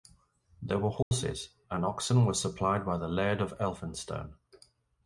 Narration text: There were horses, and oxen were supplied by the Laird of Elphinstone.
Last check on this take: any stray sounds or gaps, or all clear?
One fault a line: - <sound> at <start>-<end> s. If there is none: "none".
- dropout at 1.0-1.1 s